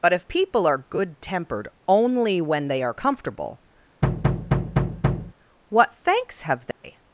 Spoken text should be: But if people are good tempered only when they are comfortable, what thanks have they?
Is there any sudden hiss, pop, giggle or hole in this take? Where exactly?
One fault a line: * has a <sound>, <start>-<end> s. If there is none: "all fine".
* has a thud, 4.0-5.3 s
* has a dropout, 6.7-6.8 s